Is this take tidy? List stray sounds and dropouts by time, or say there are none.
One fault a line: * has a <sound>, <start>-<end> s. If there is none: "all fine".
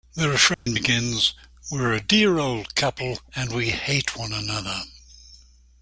* has a dropout, 0.5-0.7 s